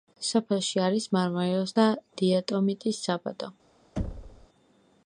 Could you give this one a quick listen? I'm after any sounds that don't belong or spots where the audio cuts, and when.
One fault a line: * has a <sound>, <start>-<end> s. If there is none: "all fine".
* has a thud, 4.0-4.5 s